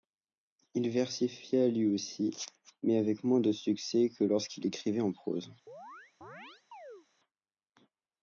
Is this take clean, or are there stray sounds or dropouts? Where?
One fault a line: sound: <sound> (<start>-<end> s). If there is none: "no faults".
sound: chirp (5.7-7.1 s)